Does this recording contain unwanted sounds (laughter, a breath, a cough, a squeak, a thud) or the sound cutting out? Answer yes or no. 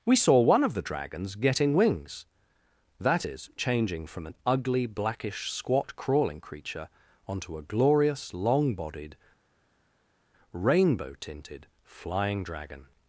no